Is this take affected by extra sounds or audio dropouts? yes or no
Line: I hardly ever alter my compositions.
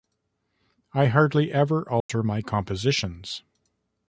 yes